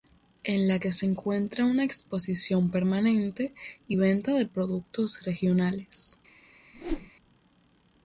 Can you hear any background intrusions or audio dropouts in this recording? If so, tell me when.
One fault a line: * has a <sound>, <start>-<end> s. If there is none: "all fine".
* has a whoosh, 6.7-7.1 s